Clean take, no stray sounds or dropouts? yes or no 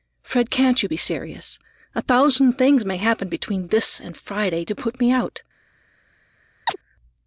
no